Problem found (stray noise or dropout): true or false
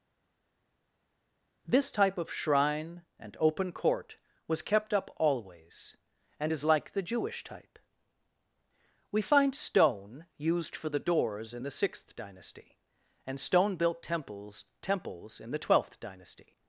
false